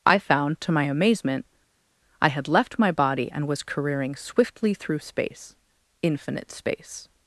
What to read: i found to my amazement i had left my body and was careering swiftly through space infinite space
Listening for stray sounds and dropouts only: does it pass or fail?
pass